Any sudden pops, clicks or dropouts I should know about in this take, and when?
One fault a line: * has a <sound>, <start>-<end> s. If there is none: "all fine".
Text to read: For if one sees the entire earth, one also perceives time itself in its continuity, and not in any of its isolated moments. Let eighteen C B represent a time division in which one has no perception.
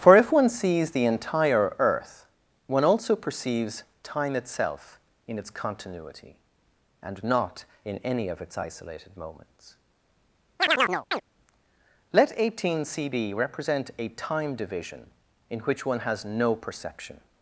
* has a chirp, 10.6-11.2 s